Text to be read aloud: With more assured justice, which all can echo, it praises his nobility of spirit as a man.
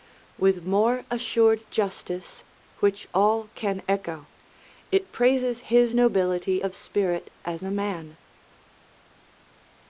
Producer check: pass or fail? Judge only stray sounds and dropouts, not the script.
pass